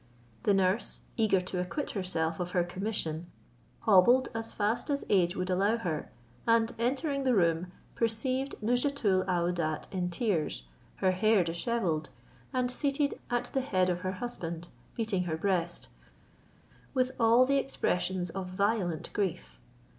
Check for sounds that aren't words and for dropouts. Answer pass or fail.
pass